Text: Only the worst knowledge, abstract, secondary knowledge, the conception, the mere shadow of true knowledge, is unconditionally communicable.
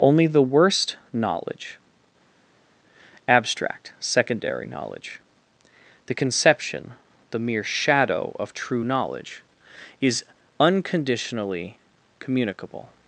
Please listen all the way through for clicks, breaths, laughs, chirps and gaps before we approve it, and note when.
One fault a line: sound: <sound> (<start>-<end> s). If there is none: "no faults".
no faults